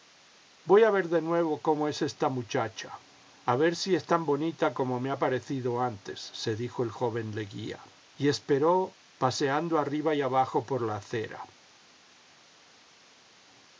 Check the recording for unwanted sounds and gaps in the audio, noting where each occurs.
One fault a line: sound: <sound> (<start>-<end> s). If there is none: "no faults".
no faults